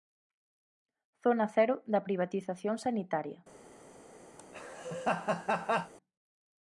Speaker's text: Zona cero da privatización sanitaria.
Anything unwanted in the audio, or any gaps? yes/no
yes